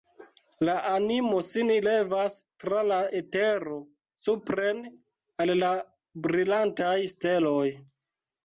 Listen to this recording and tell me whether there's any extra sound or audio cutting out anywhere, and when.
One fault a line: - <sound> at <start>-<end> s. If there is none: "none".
none